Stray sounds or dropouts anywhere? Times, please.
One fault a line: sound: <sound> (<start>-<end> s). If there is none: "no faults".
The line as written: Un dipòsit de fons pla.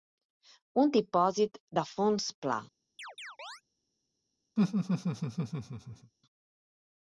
sound: chirp (3.0-3.6 s)
sound: laugh (4.6-6.1 s)